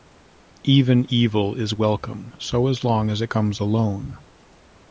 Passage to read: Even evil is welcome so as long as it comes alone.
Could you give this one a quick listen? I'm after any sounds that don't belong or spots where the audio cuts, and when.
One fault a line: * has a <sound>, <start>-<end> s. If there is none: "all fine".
all fine